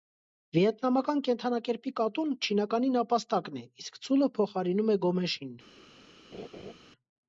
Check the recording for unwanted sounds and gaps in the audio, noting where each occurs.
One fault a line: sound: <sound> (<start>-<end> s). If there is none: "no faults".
sound: laugh (6.3-6.7 s)